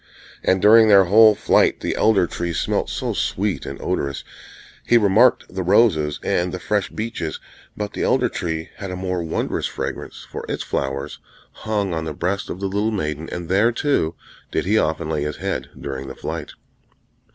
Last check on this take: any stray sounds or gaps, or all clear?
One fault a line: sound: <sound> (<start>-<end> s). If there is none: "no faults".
no faults